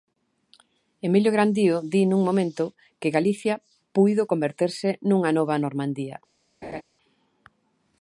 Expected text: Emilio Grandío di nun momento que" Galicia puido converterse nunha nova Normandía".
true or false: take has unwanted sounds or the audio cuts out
true